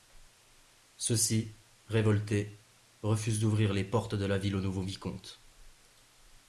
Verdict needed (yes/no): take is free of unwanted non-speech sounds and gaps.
yes